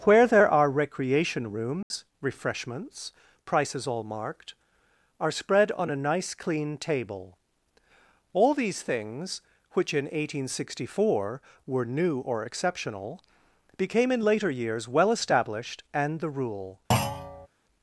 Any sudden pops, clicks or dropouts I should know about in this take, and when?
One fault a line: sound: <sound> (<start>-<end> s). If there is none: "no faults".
sound: dropout (1.8-1.9 s)
sound: thud (16.9-17.5 s)